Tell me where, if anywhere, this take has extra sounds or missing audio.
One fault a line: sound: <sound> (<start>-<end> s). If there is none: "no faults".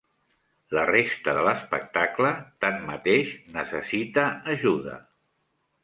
no faults